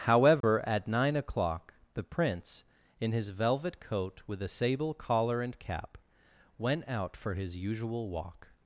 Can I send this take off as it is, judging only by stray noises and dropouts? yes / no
no